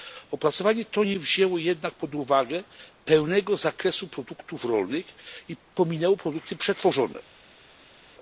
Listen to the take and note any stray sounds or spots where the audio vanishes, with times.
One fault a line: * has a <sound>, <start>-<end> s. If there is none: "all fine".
all fine